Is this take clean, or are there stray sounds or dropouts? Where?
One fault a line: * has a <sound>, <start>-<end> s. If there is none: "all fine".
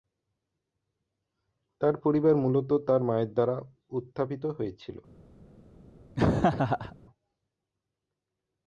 * has a laugh, 6.2-7.0 s